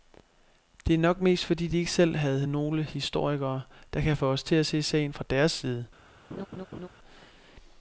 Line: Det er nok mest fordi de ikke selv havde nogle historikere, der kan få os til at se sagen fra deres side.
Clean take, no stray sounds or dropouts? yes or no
no